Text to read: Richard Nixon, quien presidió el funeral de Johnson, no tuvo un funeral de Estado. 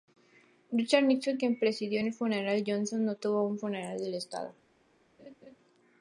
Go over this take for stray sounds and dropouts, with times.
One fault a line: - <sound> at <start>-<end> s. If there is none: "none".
- laugh at 5.2-5.6 s